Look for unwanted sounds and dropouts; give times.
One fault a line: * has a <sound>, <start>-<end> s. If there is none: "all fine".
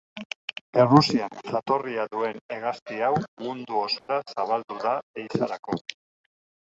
* has a dropout, 4.0-4.1 s